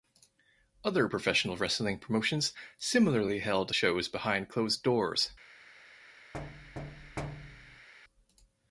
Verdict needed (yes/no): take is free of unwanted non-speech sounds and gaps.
no